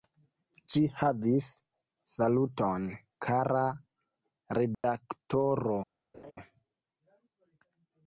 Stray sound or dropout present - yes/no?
yes